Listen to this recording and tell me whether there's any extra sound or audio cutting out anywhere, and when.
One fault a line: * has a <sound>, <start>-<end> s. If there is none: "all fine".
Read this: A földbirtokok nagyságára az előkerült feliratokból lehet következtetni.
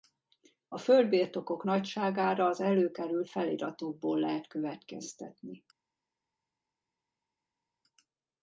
all fine